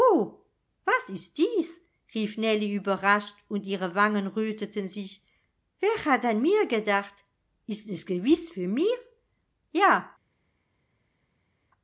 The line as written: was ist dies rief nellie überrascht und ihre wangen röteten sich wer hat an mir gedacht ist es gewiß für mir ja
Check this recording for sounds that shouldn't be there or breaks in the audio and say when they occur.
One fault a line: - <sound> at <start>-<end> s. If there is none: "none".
none